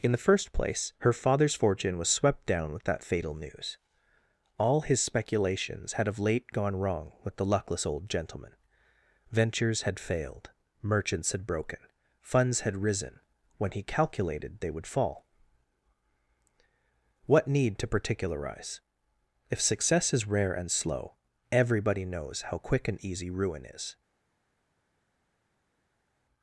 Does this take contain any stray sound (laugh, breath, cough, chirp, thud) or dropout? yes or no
no